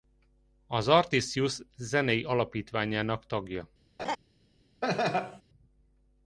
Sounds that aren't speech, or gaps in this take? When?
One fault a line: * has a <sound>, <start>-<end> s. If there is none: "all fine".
* has a laugh, 4.0-4.2 s
* has a laugh, 4.8-5.4 s